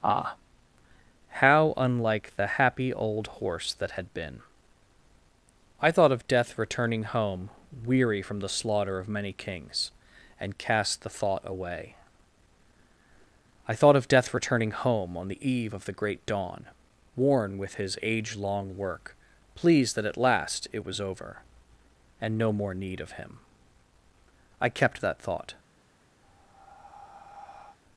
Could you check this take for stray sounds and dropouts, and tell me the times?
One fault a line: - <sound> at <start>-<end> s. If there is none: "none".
- breath at 26.2-27.8 s